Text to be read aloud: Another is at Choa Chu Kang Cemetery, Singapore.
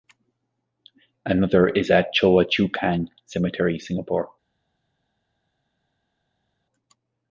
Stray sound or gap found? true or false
false